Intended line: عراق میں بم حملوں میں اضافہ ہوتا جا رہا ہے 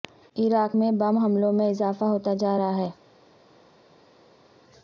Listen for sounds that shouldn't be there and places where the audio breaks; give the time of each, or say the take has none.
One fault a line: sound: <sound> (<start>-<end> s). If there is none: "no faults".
no faults